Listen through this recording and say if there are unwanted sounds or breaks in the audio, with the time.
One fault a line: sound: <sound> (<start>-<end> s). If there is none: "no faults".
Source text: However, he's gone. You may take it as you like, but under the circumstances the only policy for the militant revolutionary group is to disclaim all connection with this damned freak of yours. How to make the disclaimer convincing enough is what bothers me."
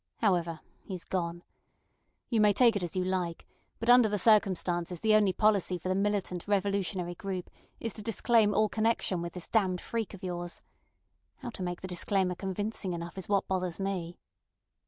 no faults